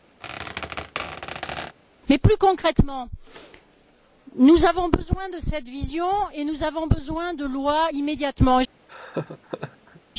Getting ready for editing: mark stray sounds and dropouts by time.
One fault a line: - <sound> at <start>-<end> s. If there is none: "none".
- squeak at 0.2-1.8 s
- laugh at 8.9-10.0 s